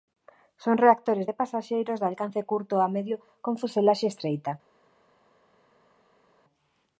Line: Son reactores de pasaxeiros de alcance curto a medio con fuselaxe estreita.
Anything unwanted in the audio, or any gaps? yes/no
no